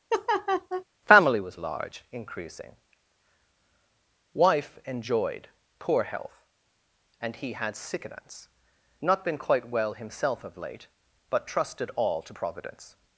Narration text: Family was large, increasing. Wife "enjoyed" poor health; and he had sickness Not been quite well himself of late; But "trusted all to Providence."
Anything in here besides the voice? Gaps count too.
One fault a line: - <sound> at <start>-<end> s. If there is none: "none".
- laugh at 0.1-0.8 s